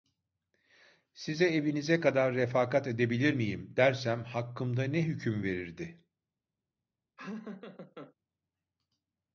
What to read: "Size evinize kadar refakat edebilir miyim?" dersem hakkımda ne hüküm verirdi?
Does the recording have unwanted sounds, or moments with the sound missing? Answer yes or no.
yes